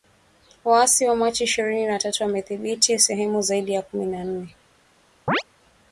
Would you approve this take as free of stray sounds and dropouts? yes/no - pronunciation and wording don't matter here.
no